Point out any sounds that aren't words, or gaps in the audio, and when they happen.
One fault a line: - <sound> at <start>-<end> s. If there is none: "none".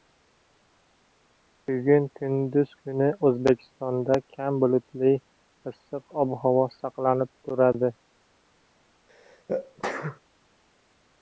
- sneeze at 9.1-10.2 s